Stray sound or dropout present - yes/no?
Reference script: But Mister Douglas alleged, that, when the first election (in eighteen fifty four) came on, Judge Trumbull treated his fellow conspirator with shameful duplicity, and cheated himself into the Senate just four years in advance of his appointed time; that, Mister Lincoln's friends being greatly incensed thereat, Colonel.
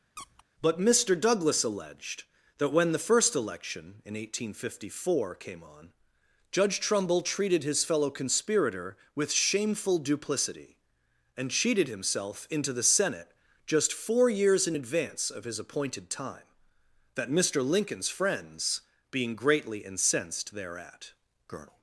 yes